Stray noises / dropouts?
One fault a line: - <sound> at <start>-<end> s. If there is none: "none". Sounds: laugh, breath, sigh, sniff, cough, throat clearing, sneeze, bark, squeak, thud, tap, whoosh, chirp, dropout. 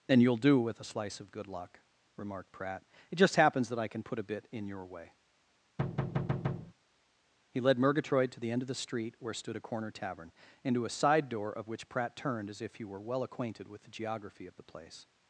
- thud at 5.8-6.7 s